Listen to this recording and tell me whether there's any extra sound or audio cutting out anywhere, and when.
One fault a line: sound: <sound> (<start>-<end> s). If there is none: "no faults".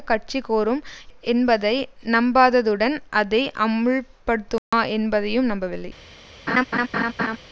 sound: dropout (4.6-4.7 s)
sound: laugh (6.5-7.4 s)